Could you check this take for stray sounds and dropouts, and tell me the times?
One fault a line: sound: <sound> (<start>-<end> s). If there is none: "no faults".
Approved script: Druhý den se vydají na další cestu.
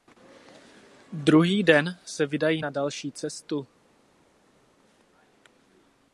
no faults